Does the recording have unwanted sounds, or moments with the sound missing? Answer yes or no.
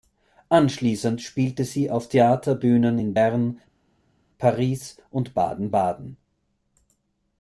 no